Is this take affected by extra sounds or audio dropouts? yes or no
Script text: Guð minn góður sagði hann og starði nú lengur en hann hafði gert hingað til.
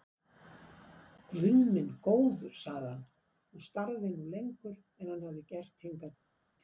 no